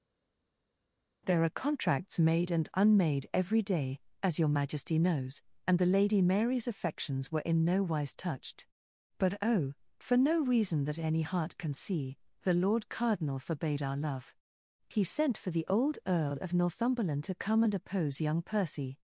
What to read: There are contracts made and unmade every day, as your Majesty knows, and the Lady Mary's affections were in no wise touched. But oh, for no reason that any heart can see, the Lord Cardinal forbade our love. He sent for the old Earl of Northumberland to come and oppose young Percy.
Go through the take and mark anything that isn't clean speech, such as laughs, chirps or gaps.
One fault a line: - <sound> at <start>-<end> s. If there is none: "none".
none